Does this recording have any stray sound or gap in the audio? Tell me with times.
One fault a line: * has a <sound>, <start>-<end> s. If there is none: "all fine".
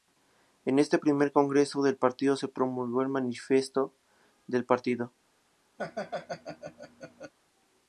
* has a laugh, 5.8-7.3 s